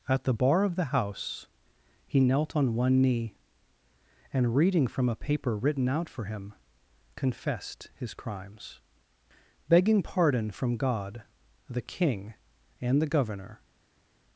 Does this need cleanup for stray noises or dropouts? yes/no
no